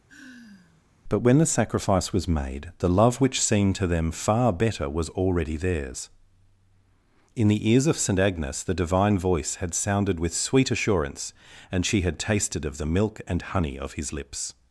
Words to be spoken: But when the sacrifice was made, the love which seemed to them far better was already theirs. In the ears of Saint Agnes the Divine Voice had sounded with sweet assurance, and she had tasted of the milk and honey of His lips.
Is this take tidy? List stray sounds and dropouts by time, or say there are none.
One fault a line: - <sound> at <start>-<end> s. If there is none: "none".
- sigh at 0.1-0.8 s